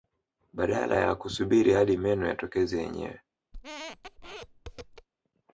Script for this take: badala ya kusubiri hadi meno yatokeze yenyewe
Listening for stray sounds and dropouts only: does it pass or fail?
fail